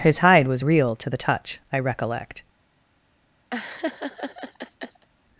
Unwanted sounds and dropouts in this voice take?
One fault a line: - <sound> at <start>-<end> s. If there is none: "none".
- laugh at 3.5-5.1 s